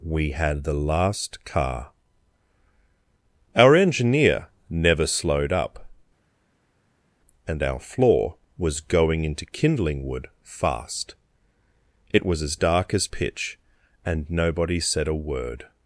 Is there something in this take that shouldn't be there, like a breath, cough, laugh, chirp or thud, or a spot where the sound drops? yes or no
no